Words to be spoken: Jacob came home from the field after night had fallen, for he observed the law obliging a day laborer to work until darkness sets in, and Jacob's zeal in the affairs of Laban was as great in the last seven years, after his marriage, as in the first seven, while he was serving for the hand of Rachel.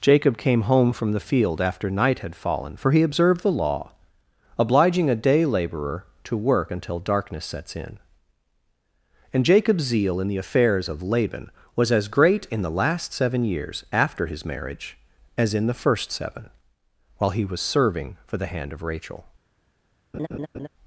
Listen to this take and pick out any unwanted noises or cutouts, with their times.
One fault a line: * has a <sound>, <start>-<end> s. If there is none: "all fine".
* has a laugh, 20.1-20.7 s